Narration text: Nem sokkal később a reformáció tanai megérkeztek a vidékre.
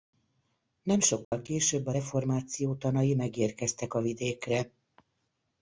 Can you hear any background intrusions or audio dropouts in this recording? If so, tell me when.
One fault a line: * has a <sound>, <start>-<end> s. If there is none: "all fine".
* has a dropout, 1.2-1.3 s